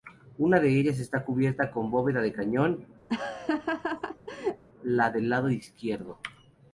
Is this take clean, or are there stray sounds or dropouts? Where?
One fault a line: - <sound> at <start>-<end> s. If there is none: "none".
- laugh at 3.1-4.6 s